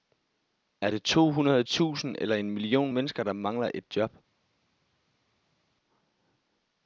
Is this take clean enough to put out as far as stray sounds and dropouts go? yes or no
yes